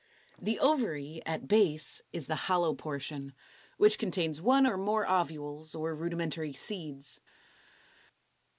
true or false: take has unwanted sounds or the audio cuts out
false